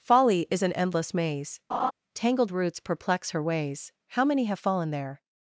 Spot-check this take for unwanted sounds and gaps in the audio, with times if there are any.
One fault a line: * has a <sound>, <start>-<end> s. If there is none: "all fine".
* has a laugh, 1.7-1.9 s